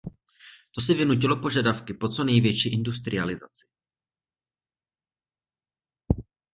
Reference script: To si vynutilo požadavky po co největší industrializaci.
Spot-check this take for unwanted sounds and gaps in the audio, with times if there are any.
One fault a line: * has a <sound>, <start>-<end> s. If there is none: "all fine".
all fine